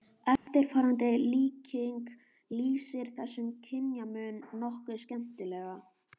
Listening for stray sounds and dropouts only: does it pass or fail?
fail